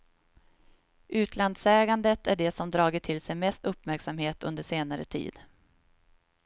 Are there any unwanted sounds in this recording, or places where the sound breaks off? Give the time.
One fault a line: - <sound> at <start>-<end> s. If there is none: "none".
none